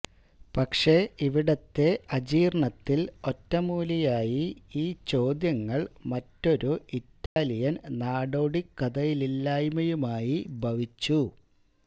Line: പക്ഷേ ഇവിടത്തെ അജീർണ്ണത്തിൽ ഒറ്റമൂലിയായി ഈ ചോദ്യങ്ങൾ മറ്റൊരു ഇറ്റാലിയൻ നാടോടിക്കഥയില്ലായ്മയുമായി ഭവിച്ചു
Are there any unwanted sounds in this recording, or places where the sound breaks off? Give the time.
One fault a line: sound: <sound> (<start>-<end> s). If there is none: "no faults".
sound: dropout (7.3-7.4 s)